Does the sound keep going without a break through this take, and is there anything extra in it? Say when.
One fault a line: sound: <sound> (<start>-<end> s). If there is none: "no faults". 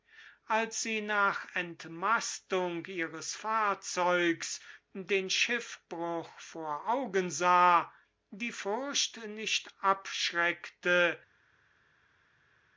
no faults